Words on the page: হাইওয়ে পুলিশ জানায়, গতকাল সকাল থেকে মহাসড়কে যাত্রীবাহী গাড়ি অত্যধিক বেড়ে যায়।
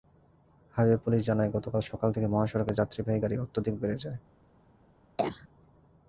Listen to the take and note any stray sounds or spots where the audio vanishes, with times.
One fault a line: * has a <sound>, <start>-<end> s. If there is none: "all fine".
* has a cough, 5.2-5.5 s